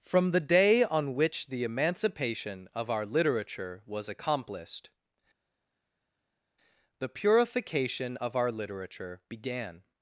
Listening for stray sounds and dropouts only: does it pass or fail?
pass